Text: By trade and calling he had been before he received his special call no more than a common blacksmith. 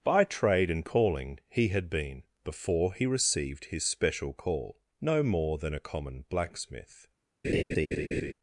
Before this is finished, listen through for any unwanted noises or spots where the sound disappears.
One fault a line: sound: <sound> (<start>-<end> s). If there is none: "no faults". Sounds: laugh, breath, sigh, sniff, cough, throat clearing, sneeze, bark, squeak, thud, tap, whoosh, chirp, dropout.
sound: laugh (7.4-8.3 s)